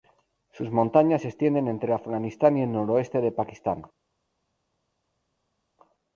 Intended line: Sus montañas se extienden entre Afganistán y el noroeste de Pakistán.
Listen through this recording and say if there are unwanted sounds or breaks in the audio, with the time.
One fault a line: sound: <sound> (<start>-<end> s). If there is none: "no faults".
no faults